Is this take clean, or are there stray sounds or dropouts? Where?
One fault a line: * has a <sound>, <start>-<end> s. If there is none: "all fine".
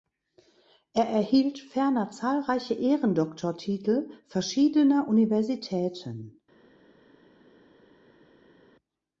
all fine